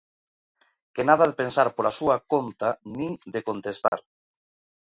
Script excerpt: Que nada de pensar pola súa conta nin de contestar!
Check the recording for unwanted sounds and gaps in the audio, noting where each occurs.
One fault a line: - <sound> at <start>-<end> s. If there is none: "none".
- dropout at 3.9-3.9 s